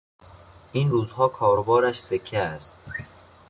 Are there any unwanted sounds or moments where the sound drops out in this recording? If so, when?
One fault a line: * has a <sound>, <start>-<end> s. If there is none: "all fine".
all fine